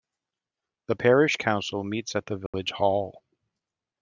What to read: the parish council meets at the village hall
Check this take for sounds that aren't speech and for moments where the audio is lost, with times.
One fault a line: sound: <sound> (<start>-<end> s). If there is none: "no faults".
sound: dropout (2.5-2.5 s)